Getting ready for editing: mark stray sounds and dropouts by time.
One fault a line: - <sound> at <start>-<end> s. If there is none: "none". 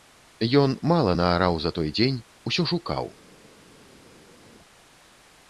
none